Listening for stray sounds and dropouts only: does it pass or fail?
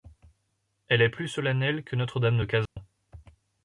fail